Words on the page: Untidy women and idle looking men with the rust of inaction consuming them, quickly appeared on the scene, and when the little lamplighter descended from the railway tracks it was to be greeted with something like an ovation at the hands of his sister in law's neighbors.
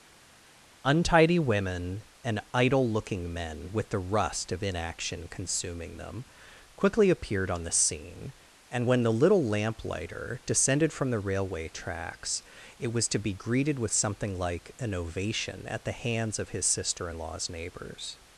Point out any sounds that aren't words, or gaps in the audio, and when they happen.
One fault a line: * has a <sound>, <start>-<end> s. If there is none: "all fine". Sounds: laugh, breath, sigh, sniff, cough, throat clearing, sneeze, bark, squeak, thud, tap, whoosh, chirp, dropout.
all fine